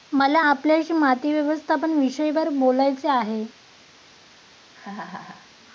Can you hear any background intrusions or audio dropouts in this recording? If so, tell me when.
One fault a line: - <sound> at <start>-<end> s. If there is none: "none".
- laugh at 4.7-5.5 s